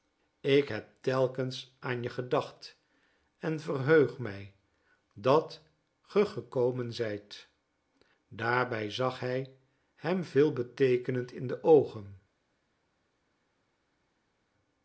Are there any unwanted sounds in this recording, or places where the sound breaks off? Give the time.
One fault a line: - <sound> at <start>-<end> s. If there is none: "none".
none